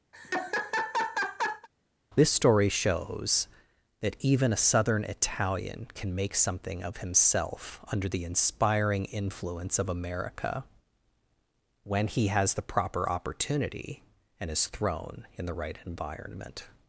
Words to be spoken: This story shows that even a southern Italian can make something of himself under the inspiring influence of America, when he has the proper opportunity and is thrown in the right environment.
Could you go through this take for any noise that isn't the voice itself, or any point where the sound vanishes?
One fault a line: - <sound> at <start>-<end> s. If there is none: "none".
- laugh at 0.1-1.7 s